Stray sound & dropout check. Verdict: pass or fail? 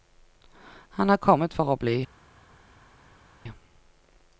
pass